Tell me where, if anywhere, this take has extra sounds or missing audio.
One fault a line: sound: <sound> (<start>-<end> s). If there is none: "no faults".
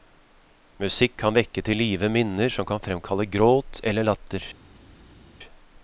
no faults